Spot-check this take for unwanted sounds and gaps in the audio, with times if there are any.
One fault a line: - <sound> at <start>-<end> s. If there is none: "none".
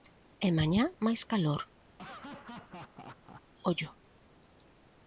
- laugh at 1.9-3.4 s